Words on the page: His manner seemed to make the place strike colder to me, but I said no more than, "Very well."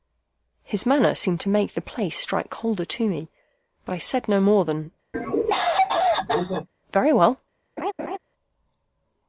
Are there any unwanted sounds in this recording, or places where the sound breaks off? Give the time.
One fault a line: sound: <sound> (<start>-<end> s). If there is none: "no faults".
sound: cough (5.1-6.7 s)
sound: laugh (7.8-8.2 s)